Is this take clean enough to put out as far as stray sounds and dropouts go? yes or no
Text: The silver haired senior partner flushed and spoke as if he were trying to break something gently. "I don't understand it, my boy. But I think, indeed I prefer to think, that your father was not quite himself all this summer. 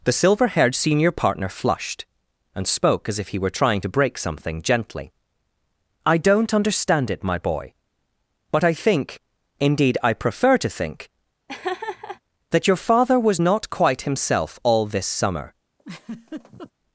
no